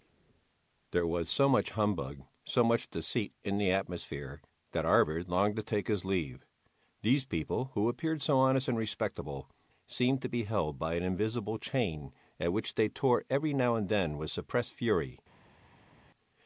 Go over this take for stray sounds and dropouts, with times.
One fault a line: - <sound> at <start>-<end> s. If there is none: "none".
none